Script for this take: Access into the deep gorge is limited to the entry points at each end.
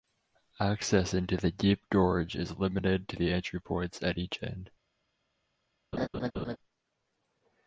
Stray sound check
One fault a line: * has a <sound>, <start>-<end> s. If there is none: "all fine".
* has a laugh, 5.9-6.6 s